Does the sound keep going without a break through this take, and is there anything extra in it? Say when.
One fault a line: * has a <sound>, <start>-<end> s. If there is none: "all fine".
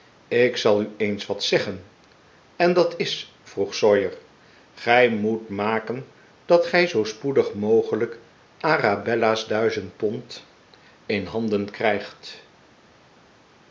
all fine